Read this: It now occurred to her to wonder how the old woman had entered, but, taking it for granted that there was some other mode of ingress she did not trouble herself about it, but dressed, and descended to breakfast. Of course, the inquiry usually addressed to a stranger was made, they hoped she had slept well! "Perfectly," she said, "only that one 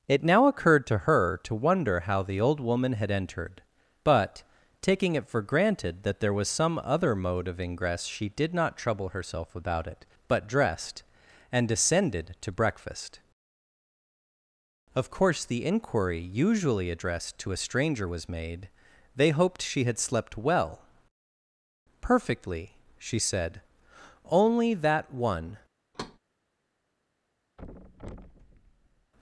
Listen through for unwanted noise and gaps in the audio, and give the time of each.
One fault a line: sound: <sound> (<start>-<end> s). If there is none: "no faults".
sound: thud (25.9-26.2 s)
sound: thud (27.6-29.1 s)